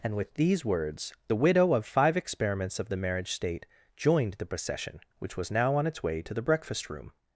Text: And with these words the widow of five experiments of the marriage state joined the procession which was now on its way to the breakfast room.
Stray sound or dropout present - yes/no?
no